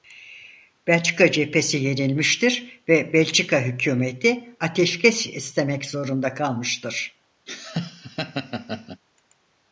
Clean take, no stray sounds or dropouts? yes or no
no